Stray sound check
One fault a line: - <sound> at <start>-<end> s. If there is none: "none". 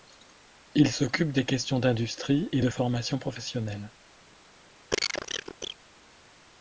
- cough at 4.9-5.8 s